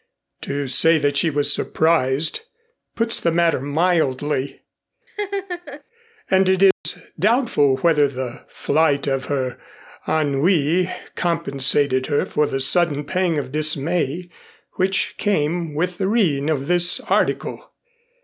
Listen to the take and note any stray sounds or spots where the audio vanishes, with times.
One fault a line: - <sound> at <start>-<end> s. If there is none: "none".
- laugh at 5.1-5.8 s
- dropout at 6.7-6.9 s